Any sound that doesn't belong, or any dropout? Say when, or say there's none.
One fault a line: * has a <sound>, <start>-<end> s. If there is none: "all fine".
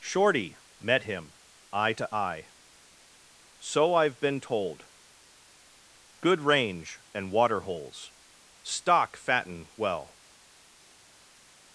all fine